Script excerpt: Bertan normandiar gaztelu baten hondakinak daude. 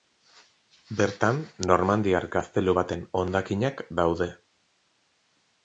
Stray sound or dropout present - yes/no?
no